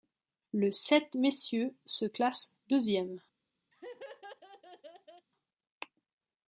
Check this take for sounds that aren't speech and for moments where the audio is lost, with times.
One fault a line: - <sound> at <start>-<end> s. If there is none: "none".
- laugh at 3.7-5.3 s